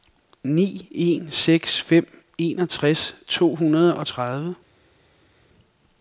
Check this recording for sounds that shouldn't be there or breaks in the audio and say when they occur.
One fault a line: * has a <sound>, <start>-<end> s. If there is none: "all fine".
all fine